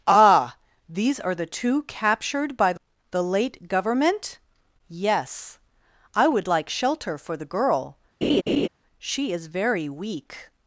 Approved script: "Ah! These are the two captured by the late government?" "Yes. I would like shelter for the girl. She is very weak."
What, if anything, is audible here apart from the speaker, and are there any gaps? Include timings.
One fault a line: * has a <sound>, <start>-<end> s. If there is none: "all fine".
* has a laugh, 8.2-8.7 s